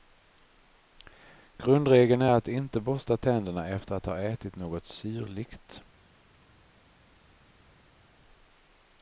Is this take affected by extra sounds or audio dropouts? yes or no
no